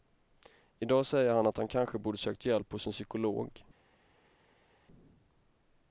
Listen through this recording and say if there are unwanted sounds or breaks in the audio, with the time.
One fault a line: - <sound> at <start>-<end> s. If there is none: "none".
none